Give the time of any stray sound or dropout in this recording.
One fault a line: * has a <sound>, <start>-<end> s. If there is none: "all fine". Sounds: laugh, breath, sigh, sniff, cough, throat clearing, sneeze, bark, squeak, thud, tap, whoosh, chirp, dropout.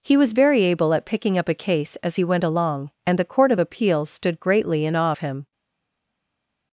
all fine